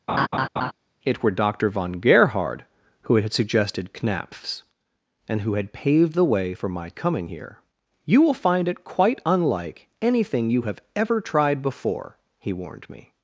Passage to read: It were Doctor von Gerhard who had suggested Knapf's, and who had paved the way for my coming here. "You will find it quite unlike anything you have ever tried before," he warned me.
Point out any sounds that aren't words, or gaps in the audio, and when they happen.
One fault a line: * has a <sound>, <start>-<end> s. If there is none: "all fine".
* has a laugh, 0.1-0.7 s